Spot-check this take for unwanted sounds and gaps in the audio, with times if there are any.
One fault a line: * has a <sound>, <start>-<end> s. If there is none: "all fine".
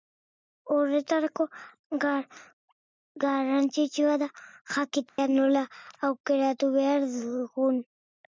* has a dropout, 5.1-5.2 s